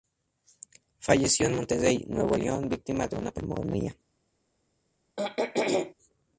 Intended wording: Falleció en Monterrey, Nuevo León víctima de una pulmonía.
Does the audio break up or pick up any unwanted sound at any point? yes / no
yes